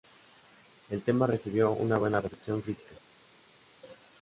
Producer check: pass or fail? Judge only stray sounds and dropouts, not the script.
pass